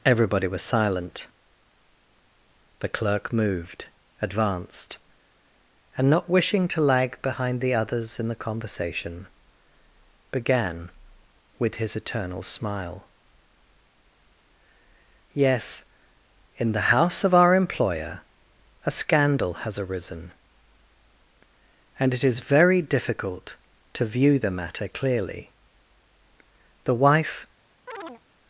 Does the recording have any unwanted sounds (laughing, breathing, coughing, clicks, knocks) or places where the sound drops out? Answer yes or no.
yes